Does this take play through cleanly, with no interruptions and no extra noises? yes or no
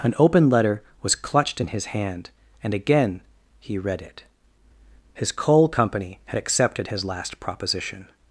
yes